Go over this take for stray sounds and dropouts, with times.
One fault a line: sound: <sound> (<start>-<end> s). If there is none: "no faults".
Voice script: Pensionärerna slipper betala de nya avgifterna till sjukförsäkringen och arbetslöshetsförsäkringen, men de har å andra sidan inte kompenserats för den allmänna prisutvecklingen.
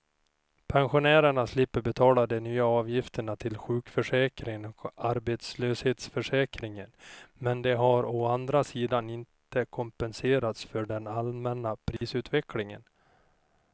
sound: dropout (12.0-12.0 s)